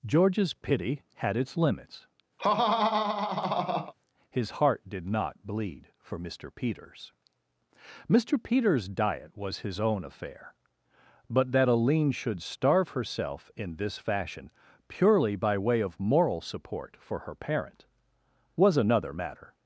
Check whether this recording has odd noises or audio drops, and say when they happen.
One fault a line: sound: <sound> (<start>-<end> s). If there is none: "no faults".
sound: laugh (2.4-3.9 s)